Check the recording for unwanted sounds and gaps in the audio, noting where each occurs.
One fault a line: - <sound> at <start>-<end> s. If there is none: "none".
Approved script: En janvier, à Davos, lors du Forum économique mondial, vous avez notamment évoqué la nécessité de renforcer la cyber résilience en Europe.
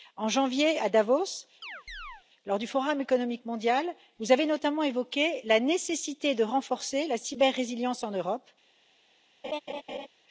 - chirp at 1.6-2.2 s
- laugh at 9.4-10.1 s